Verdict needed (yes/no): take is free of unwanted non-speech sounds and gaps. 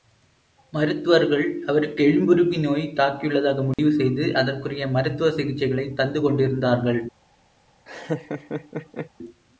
no